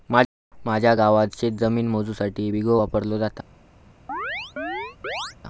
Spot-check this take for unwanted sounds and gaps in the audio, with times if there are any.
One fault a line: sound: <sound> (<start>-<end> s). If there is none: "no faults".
sound: chirp (4.1-5.4 s)